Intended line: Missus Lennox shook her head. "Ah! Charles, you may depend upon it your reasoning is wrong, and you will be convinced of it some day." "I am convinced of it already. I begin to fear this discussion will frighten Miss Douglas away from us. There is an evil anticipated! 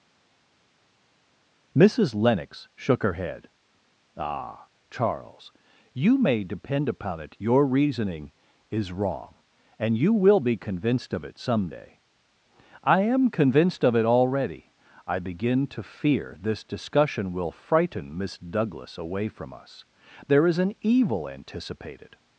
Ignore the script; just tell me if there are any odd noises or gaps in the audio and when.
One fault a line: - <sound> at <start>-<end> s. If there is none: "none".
none